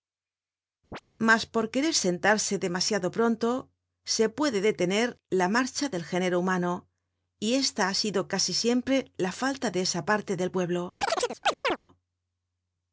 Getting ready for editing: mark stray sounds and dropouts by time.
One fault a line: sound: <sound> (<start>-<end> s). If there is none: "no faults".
sound: chirp (0.9-1.0 s)
sound: chirp (11.0-11.8 s)